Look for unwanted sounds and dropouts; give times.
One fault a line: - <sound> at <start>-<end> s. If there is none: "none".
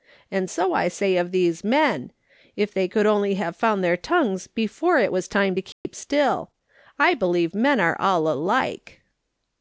- dropout at 5.7-5.8 s